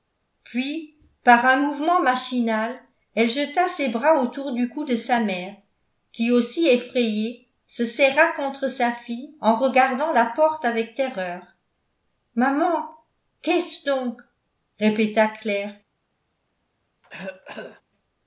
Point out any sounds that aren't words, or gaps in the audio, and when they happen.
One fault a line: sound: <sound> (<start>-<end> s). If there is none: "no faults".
sound: cough (17.0-17.8 s)